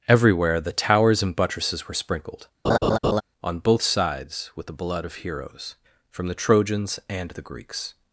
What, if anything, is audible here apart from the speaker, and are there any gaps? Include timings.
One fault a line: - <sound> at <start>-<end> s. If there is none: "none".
- laugh at 2.6-3.2 s